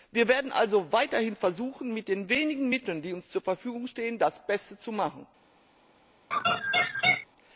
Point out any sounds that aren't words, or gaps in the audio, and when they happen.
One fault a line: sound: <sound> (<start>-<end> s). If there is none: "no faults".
sound: laugh (6.3-7.3 s)